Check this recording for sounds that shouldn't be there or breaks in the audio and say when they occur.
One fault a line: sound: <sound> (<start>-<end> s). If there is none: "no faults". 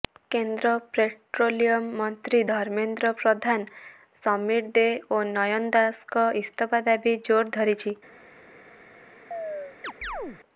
sound: chirp (9.3-10.4 s)